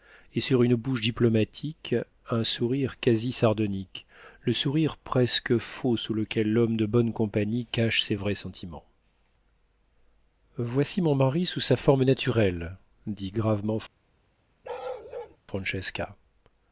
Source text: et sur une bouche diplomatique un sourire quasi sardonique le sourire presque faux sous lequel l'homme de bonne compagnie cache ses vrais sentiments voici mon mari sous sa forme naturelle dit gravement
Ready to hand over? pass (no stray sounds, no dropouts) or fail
fail